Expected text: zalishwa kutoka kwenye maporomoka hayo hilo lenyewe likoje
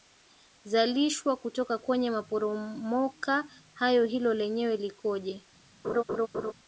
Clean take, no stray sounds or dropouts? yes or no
no